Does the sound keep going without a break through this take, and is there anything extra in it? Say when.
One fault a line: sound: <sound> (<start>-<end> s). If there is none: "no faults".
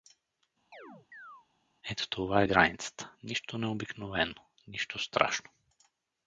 sound: chirp (0.7-1.5 s)